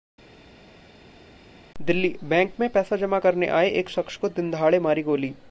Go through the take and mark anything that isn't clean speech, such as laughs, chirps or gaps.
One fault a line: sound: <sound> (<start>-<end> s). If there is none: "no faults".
no faults